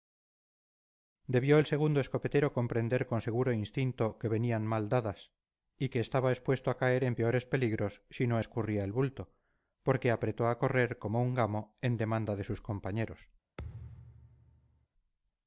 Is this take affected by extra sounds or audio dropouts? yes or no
yes